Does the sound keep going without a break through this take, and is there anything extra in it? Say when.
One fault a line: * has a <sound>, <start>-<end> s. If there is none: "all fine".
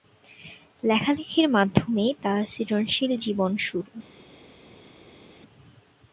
all fine